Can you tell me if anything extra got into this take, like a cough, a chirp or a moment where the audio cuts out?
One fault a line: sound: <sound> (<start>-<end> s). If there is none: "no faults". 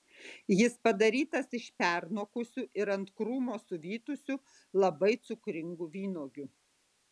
no faults